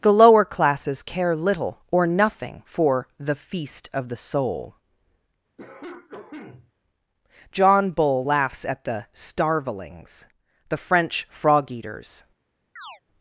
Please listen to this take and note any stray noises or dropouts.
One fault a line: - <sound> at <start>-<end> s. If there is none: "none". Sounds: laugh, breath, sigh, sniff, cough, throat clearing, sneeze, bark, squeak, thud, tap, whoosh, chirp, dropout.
- cough at 5.6-6.7 s
- chirp at 12.8-13.0 s